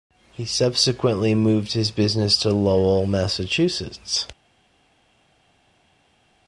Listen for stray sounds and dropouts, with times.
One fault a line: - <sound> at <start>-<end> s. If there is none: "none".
none